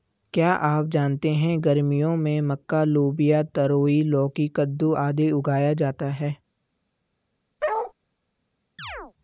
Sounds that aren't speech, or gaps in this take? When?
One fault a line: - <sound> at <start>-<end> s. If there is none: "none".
- bark at 7.6-7.9 s
- chirp at 8.8-9.1 s